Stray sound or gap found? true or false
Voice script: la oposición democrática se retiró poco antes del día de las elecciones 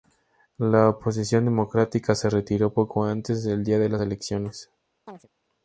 true